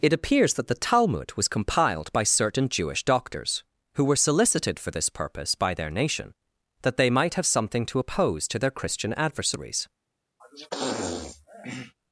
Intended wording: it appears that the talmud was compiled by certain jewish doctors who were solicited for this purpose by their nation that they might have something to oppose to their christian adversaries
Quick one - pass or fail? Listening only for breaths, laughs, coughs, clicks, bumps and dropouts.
fail